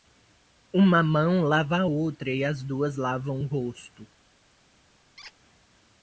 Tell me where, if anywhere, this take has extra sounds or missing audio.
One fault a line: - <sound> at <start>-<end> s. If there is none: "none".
- squeak at 5.2-5.3 s